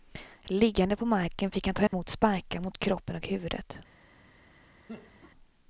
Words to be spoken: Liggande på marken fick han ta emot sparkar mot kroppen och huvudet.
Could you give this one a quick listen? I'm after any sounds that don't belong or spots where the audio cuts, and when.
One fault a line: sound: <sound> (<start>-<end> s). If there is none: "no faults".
sound: dropout (1.9-1.9 s)
sound: laugh (4.9-5.3 s)